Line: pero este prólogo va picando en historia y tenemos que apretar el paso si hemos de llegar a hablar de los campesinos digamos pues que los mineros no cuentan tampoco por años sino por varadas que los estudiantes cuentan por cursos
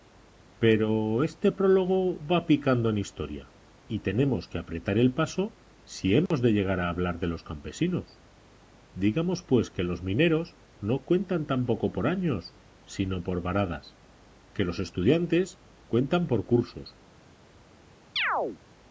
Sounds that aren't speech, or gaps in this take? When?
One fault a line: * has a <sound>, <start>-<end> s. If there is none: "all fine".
* has a dropout, 6.3-6.3 s
* has a chirp, 18.2-18.6 s